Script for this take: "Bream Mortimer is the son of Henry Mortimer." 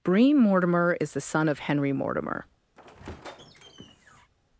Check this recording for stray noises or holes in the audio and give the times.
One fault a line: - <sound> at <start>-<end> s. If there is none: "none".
- squeak at 2.8-4.3 s